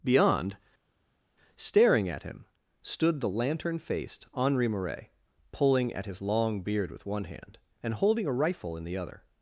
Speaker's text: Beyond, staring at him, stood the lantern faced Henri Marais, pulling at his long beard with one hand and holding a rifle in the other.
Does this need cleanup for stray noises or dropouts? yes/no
no